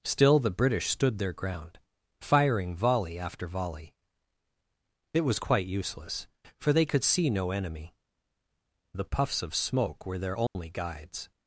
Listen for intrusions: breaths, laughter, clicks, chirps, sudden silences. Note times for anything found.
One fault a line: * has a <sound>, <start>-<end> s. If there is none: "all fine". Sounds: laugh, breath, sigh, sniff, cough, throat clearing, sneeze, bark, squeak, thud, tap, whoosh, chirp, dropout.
* has a dropout, 10.5-10.6 s